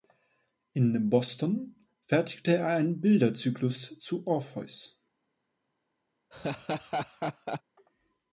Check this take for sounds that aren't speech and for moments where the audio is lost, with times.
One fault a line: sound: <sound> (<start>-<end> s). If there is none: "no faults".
sound: laugh (6.3-7.6 s)